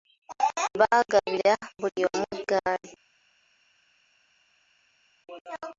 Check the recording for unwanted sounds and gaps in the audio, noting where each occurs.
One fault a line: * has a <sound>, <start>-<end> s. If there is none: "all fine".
all fine